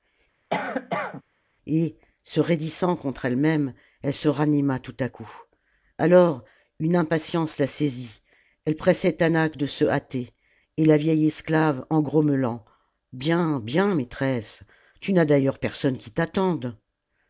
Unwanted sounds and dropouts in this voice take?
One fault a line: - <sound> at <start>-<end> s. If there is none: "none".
- cough at 0.5-1.2 s